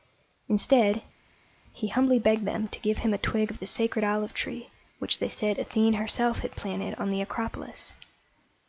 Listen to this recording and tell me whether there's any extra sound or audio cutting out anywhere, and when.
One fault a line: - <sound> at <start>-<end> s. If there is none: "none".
none